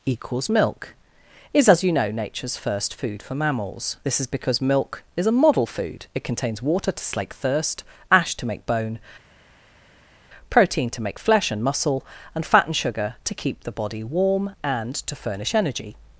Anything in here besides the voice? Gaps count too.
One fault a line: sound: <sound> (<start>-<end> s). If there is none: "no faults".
no faults